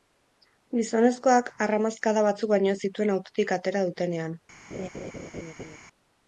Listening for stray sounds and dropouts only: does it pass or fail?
fail